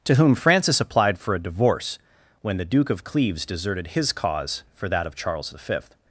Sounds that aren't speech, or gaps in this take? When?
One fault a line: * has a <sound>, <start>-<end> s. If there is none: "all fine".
all fine